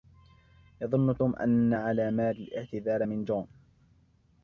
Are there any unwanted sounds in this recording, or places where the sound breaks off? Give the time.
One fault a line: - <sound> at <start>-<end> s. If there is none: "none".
none